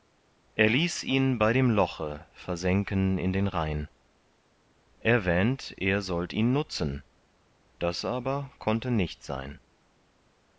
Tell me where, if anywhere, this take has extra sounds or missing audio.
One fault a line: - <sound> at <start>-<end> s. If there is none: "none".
none